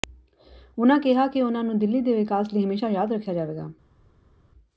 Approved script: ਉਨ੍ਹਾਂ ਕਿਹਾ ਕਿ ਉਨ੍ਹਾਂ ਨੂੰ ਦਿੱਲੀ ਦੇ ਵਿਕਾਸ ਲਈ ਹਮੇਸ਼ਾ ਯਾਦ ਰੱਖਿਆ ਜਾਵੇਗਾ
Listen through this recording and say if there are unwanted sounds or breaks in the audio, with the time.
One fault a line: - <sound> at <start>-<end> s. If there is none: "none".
none